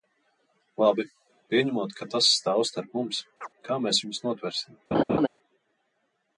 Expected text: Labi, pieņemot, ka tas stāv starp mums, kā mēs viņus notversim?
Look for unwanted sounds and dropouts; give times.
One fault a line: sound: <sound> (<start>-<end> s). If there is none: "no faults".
sound: chirp (3.4-3.5 s)
sound: laugh (4.9-5.3 s)